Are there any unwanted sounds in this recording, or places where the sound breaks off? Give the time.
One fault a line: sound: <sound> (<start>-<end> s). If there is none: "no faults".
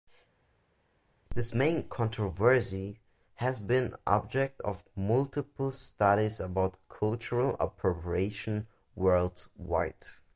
no faults